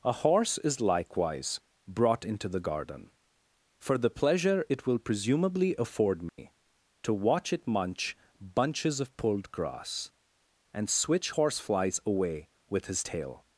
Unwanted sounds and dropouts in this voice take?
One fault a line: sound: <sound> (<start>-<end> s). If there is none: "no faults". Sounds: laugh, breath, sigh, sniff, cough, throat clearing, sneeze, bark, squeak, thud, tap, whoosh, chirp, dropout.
sound: dropout (6.3-6.4 s)